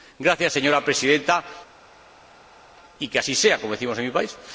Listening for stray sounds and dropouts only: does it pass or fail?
pass